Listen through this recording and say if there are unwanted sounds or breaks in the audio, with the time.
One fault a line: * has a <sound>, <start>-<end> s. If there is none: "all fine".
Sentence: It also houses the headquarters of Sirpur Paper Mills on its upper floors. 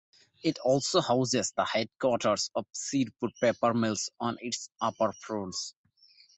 all fine